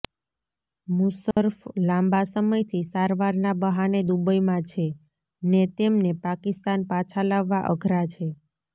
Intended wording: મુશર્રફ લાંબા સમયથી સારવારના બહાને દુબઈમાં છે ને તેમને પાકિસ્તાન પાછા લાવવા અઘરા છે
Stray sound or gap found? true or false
true